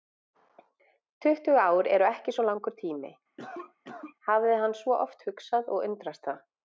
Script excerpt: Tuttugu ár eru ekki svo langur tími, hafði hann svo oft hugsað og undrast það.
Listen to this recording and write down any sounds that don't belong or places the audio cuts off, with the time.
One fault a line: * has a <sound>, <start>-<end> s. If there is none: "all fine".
* has a cough, 3.4-4.2 s